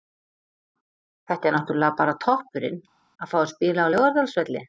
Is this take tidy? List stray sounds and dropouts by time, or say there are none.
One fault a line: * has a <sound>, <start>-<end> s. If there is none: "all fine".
all fine